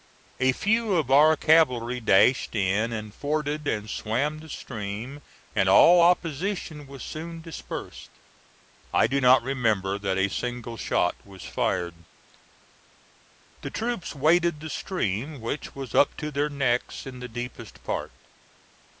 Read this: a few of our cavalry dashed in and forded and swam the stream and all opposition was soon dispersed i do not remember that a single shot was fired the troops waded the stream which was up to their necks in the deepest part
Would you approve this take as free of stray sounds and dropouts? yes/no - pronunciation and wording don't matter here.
yes